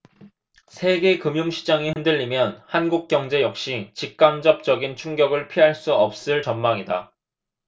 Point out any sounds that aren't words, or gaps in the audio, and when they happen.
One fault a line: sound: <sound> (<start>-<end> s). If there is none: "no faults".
sound: dropout (1.9-2.0 s)